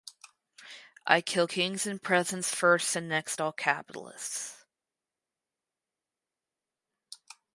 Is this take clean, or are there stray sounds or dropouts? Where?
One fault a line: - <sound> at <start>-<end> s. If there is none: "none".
none